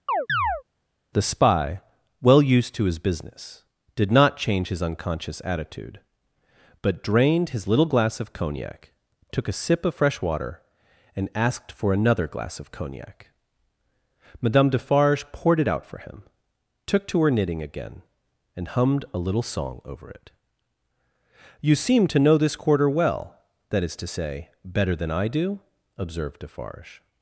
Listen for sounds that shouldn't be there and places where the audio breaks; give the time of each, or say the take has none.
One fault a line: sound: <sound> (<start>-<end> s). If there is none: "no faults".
sound: chirp (0.1-0.6 s)